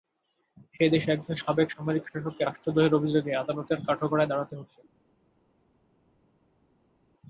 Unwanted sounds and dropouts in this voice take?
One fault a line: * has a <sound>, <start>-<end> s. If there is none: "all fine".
all fine